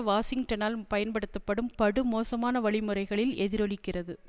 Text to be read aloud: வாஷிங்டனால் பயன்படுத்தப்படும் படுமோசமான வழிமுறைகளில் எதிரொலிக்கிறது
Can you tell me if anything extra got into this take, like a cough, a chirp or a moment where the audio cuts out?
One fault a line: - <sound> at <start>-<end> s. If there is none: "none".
none